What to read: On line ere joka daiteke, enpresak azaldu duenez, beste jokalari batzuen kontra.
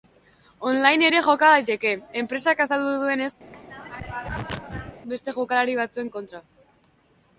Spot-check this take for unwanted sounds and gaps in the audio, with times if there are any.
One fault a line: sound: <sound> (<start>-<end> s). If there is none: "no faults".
sound: throat clearing (3.5-5.0 s)